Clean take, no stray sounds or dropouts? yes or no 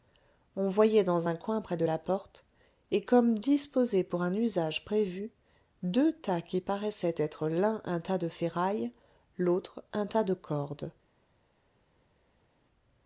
yes